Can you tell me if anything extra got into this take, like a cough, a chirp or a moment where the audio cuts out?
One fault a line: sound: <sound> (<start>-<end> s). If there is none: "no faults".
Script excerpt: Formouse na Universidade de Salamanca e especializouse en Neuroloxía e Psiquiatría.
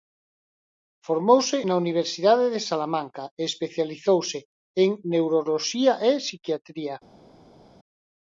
no faults